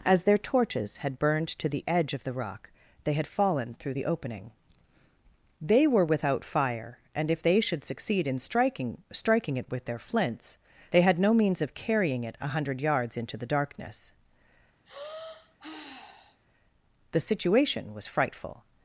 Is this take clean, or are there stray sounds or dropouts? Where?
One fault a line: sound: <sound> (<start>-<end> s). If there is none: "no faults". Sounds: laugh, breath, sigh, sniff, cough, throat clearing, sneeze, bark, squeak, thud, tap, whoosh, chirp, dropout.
sound: sigh (14.9-16.4 s)